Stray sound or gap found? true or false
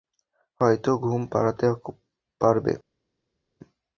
false